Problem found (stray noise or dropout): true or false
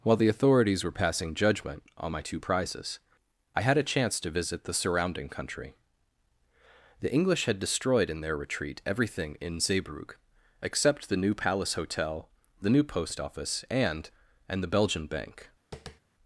true